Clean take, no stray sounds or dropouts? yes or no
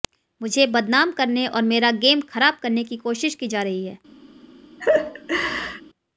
no